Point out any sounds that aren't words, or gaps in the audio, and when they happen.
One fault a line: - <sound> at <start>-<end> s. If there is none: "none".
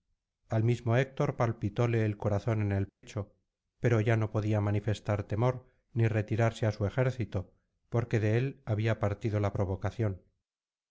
- dropout at 2.9-3.0 s